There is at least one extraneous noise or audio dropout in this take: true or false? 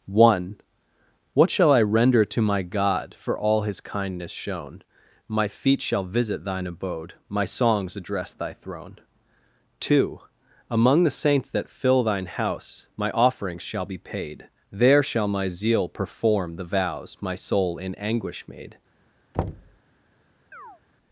true